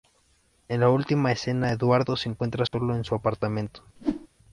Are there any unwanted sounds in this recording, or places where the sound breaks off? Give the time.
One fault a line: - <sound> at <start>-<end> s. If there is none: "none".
- dropout at 2.7-2.7 s
- whoosh at 4.0-4.3 s